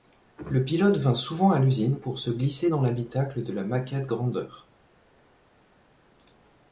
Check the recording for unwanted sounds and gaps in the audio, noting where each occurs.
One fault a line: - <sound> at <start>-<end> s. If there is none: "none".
none